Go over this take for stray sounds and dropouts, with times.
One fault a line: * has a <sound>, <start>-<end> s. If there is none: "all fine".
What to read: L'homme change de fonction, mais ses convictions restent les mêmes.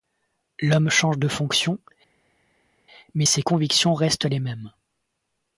all fine